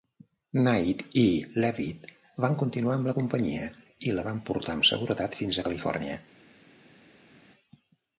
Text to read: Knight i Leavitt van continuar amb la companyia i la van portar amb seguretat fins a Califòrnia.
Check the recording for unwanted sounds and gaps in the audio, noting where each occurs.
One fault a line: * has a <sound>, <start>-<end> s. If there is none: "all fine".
all fine